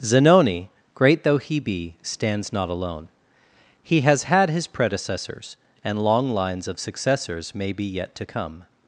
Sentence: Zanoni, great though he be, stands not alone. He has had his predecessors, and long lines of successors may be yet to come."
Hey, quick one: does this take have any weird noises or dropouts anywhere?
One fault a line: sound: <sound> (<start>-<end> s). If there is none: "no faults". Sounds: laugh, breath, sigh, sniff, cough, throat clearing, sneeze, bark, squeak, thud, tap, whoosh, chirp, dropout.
no faults